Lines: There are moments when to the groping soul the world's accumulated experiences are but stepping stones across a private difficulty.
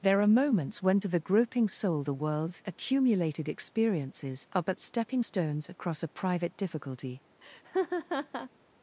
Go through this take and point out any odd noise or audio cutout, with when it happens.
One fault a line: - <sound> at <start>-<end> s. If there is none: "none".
- laugh at 7.4-8.5 s